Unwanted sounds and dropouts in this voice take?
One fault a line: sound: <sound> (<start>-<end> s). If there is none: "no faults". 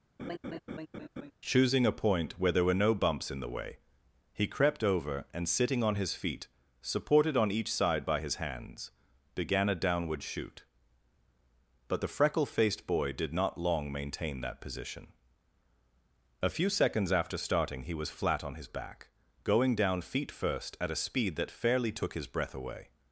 sound: laugh (0.2-1.3 s)